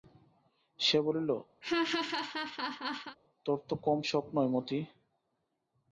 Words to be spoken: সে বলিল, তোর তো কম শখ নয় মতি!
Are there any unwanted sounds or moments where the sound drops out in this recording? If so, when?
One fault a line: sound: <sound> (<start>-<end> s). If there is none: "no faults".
sound: laugh (1.6-3.2 s)